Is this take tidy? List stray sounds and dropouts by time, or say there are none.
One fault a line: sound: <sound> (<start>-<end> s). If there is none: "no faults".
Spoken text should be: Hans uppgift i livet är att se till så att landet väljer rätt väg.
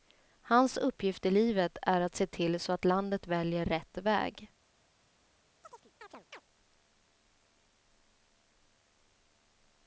sound: chirp (5.6-6.4 s)